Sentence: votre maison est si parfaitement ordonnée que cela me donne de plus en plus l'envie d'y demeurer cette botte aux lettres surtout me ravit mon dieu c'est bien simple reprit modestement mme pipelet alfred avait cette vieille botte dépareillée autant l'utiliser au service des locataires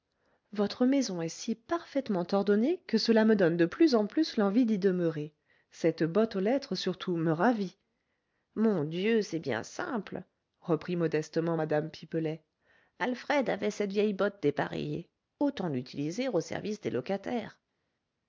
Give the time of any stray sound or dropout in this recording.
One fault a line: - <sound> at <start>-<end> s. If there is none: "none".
none